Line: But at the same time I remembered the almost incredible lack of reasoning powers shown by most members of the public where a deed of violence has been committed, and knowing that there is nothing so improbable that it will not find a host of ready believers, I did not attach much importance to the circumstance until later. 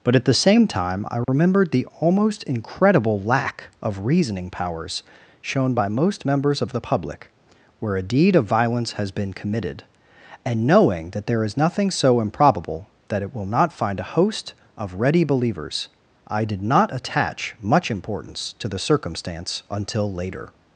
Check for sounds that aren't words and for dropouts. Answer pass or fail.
fail